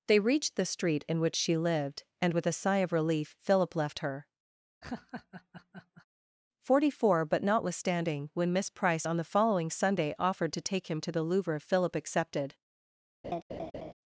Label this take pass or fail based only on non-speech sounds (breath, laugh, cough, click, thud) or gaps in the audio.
fail